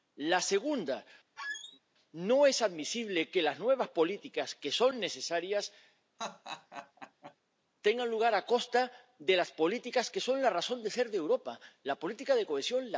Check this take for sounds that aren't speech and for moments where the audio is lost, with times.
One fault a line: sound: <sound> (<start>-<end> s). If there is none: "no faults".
sound: squeak (1.4-1.8 s)
sound: laugh (6.2-7.4 s)